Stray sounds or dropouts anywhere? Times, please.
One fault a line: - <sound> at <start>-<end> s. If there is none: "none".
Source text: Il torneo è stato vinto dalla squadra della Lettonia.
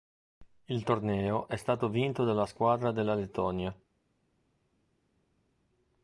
none